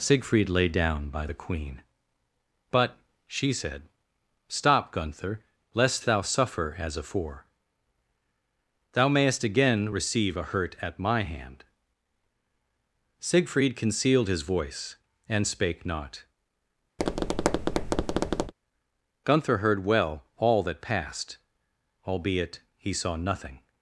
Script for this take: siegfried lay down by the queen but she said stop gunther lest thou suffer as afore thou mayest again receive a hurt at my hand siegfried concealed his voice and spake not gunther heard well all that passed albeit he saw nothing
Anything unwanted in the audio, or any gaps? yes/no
yes